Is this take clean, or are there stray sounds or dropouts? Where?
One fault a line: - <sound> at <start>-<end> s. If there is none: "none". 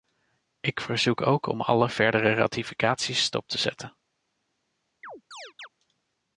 - chirp at 5.0-5.7 s